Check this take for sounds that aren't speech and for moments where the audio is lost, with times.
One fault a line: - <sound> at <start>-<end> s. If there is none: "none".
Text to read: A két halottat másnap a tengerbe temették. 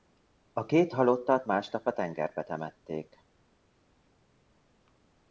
none